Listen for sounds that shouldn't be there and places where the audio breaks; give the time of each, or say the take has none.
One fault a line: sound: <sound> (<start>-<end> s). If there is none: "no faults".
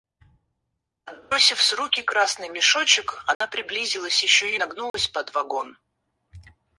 sound: dropout (3.3-3.4 s)
sound: dropout (4.9-4.9 s)